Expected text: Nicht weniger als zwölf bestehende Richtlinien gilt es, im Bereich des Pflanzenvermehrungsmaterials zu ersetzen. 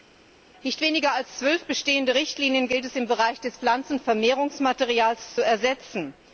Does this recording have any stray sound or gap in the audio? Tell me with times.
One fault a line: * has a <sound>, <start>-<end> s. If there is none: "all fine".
all fine